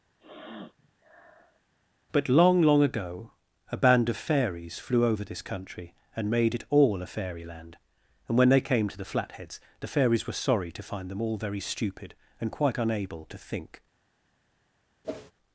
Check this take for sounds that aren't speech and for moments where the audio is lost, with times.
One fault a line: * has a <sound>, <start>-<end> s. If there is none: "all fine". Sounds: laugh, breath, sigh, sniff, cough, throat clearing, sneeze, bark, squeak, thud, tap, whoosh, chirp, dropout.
* has a sniff, 0.2-1.6 s
* has a whoosh, 15.0-15.3 s